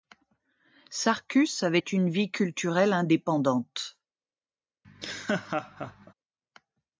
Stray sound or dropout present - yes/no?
yes